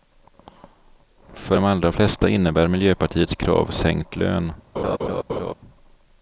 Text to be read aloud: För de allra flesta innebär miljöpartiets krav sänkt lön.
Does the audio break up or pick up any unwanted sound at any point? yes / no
yes